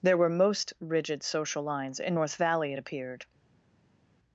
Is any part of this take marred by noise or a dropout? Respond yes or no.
no